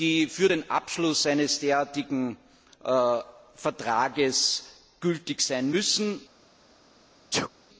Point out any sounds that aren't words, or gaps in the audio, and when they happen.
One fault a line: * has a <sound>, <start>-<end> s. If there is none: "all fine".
* has a sneeze, 7.3-7.5 s